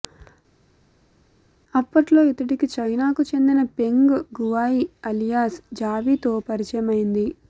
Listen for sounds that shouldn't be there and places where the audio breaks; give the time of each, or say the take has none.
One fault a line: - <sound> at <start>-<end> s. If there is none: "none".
none